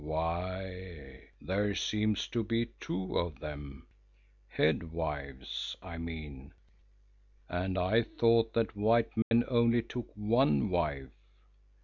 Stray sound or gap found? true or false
true